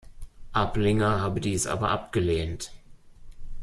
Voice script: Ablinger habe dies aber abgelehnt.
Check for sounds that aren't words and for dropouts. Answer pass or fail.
pass